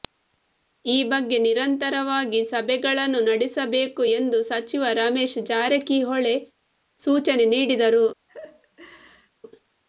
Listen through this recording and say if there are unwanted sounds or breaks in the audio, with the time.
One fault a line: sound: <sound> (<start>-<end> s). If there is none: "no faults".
sound: laugh (8.3-9.3 s)